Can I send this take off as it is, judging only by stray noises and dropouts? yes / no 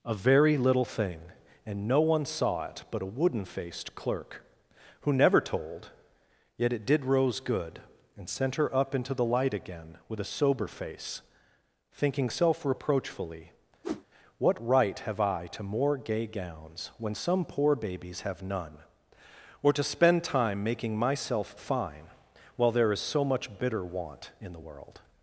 no